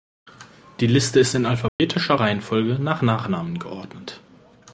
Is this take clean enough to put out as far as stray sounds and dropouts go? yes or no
no